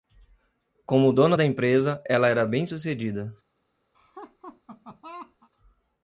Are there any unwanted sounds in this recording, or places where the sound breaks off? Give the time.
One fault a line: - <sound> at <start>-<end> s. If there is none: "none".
- laugh at 3.9-5.5 s